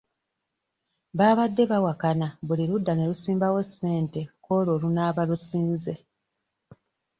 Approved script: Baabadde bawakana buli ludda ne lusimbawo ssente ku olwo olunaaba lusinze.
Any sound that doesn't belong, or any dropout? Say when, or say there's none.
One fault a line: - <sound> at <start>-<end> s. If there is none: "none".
none